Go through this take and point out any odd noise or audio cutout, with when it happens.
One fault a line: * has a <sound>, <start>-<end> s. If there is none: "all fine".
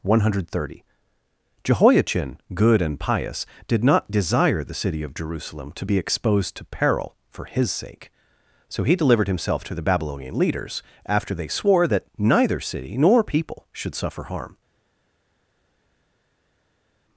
all fine